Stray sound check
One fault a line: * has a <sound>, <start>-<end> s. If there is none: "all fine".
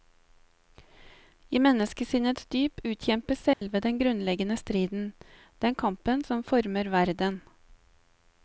* has a dropout, 3.5-3.6 s